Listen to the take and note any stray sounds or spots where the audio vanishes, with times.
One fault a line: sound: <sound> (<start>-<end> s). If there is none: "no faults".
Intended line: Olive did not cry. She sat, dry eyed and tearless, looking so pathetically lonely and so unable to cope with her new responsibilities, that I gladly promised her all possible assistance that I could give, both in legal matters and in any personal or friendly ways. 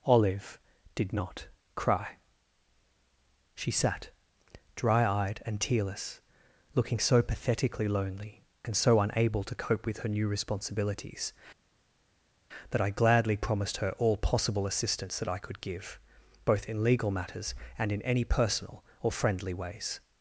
no faults